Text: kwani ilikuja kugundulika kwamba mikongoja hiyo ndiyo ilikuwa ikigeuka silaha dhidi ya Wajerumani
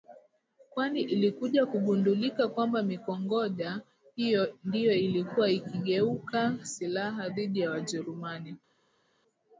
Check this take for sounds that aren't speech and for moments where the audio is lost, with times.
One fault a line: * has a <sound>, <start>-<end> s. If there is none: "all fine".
all fine